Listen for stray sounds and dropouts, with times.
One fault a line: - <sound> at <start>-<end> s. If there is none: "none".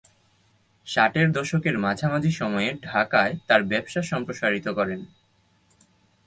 none